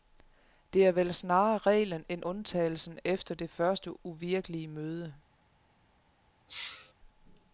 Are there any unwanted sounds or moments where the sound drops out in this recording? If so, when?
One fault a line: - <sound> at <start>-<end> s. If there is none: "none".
- sneeze at 6.5-6.9 s